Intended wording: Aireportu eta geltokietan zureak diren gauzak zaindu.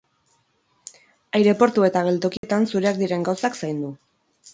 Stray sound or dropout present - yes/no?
yes